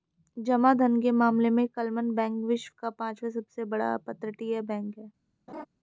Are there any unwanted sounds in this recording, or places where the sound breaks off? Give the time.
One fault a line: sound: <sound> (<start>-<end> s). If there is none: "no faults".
sound: laugh (5.5-5.7 s)